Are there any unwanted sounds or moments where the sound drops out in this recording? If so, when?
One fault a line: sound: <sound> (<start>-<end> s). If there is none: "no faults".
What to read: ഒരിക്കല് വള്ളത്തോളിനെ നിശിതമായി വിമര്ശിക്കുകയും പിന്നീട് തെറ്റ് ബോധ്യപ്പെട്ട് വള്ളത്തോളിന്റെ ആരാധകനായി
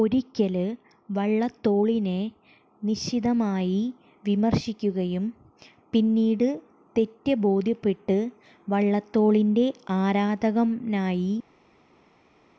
no faults